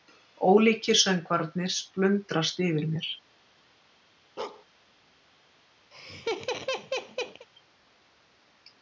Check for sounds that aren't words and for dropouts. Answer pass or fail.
fail